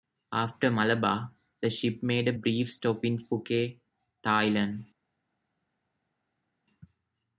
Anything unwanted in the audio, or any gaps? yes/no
no